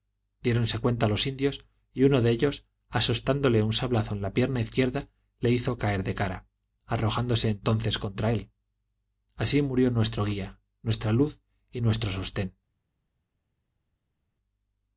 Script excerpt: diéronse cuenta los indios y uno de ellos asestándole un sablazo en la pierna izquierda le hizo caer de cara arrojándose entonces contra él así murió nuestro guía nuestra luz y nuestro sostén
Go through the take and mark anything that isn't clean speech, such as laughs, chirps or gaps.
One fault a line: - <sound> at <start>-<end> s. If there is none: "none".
none